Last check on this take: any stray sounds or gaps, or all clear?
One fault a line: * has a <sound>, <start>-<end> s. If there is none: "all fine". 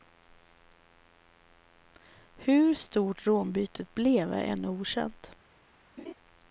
* has a laugh, 6.0-6.1 s